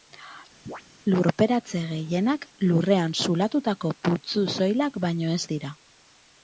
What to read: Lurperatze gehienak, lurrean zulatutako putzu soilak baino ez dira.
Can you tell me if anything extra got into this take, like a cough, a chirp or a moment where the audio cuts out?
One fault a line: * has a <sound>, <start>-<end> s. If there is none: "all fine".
* has a chirp, 0.7-0.8 s